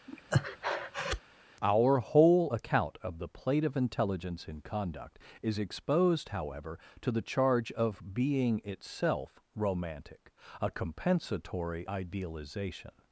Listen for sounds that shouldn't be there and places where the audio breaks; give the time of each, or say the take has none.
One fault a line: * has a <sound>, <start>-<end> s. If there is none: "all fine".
* has a breath, 0.1-1.2 s